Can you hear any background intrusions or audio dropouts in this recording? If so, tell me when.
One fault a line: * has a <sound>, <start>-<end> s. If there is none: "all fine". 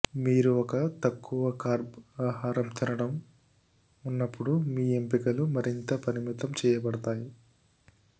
all fine